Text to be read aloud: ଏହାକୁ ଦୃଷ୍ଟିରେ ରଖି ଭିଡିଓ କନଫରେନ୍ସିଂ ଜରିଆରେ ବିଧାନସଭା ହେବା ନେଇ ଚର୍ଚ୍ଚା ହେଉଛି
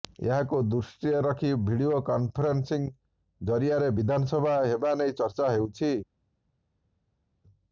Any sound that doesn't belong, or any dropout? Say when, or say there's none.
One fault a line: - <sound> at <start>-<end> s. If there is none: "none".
none